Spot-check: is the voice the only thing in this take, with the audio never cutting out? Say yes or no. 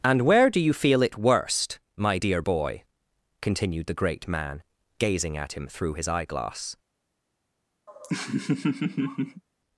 no